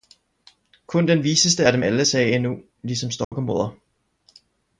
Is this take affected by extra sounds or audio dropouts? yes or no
yes